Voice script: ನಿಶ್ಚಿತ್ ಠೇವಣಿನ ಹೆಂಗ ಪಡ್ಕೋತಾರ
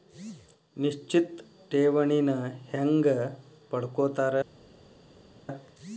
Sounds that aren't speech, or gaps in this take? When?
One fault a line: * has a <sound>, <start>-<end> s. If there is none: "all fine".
all fine